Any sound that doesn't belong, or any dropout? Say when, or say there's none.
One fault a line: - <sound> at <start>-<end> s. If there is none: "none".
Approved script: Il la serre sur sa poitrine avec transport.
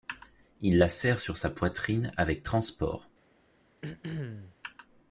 - throat clearing at 3.8-4.6 s